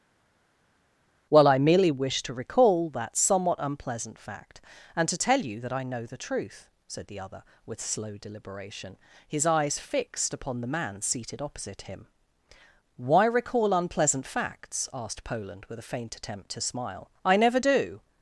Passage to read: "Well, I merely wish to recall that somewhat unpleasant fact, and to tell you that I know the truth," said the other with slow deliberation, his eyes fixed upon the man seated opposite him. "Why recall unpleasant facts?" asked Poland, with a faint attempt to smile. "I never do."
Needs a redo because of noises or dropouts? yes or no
no